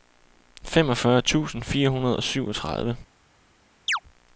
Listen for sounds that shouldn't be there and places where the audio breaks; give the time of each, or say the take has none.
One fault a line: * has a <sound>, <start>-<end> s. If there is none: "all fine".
* has a chirp, 3.9-4.0 s